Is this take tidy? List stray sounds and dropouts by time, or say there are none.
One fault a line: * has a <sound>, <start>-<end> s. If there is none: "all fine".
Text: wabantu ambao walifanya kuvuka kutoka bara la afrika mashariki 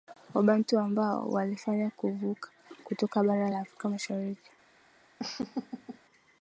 * has a laugh, 5.2-6.0 s